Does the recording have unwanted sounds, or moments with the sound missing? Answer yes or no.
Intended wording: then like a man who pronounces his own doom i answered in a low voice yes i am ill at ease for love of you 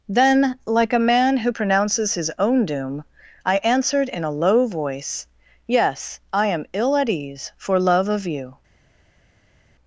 no